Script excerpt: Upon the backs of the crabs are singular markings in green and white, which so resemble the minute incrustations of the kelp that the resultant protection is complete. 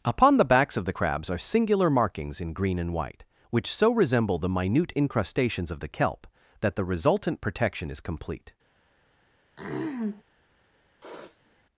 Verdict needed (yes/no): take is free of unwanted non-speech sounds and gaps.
no